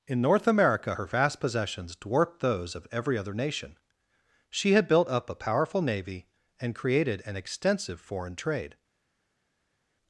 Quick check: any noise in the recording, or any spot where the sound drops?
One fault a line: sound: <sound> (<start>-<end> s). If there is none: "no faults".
no faults